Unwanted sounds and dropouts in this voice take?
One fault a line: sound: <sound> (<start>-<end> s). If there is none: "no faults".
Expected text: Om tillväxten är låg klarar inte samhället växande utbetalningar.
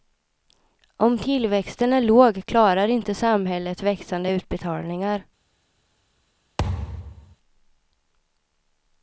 sound: thud (6.6-7.4 s)